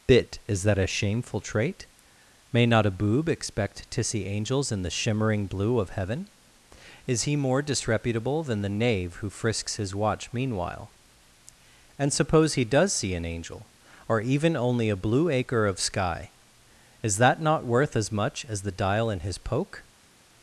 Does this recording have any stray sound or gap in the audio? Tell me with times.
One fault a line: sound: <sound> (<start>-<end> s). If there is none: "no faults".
no faults